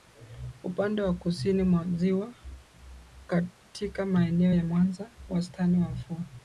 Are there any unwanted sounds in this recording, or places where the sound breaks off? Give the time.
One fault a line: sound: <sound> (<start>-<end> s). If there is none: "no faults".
no faults